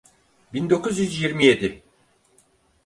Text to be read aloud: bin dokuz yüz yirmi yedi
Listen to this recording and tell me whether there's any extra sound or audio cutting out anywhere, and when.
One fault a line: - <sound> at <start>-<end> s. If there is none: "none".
none